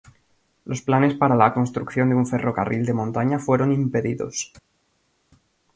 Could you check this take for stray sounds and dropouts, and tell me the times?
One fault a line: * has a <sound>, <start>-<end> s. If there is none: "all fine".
all fine